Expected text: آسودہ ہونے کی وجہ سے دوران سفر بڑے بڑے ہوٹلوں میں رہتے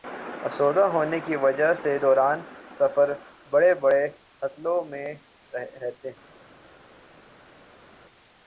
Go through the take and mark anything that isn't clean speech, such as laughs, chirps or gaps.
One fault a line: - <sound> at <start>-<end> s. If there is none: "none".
none